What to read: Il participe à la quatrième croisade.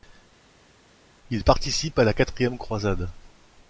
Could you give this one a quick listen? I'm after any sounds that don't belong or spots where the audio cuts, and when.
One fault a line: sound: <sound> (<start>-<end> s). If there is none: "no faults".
no faults